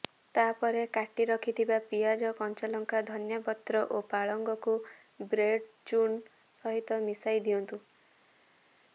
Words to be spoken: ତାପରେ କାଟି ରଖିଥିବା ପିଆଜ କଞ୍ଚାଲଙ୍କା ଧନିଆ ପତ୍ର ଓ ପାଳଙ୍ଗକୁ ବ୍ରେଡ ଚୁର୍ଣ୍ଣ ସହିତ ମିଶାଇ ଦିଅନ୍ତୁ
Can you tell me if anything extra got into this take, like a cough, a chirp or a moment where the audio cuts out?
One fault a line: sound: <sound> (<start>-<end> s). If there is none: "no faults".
no faults